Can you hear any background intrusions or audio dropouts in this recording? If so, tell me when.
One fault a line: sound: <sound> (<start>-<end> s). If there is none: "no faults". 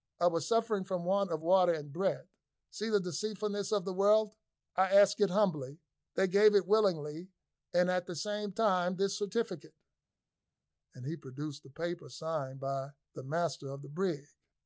no faults